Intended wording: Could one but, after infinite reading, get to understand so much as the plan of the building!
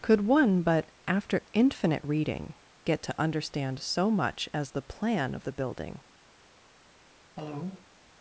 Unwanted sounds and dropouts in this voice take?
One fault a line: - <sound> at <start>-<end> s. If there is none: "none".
- cough at 7.4-7.9 s